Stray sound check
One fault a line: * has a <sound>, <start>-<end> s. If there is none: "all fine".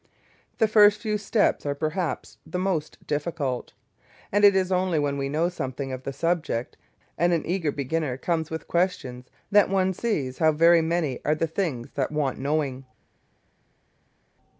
all fine